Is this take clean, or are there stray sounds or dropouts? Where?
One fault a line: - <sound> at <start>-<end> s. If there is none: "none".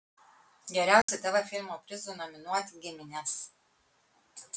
- dropout at 1.0-1.1 s